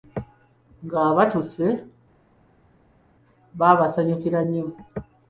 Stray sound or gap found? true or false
false